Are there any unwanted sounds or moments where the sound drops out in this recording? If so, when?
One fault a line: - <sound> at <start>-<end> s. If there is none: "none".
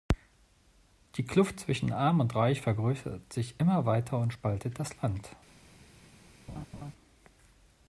- laugh at 6.5-6.9 s